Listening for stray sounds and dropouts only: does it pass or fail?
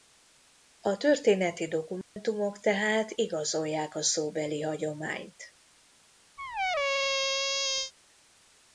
fail